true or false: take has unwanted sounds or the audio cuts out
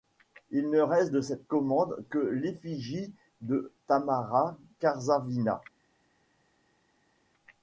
false